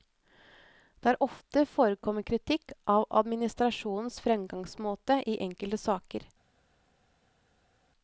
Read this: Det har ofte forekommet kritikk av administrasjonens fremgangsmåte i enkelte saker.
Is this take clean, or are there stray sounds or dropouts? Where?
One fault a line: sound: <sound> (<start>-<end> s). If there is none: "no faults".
no faults